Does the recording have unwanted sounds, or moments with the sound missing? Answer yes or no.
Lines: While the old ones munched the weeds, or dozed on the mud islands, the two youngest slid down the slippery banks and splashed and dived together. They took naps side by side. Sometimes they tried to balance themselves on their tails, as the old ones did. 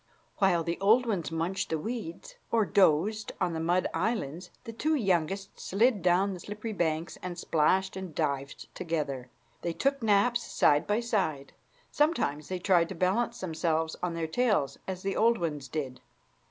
no